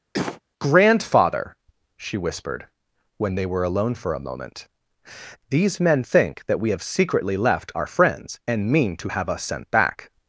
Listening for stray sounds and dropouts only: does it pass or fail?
fail